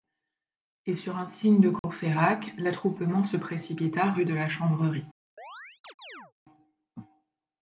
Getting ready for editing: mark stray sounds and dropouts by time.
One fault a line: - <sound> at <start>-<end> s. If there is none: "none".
- dropout at 1.8-1.8 s
- chirp at 5.4-6.3 s